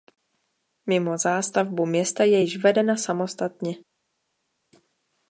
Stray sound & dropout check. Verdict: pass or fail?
pass